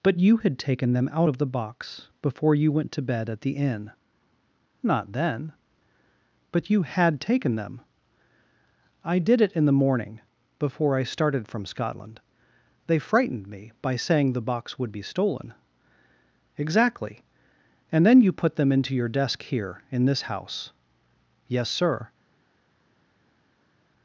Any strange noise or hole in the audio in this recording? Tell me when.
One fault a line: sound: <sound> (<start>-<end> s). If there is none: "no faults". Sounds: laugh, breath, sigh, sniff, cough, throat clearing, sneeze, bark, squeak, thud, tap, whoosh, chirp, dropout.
no faults